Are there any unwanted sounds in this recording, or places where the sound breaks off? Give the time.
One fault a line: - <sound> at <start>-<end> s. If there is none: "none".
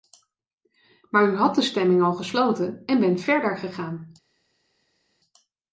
none